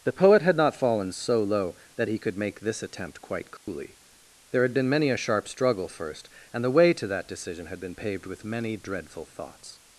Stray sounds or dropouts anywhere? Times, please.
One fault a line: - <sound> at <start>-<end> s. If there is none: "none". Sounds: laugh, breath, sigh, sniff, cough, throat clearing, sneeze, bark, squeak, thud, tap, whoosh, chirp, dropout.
- dropout at 3.6-3.7 s